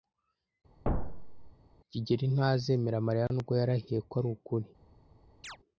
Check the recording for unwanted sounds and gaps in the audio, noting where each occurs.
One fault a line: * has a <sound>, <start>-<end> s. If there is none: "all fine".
* has a thud, 0.8-1.5 s
* has a chirp, 5.4-5.6 s